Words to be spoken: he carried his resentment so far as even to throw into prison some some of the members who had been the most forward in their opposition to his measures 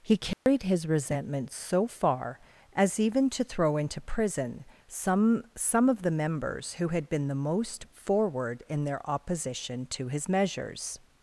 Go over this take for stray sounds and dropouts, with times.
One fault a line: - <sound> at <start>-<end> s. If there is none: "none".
- dropout at 0.3-0.5 s